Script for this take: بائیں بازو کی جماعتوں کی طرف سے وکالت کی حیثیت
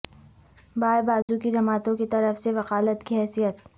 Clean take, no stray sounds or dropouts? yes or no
no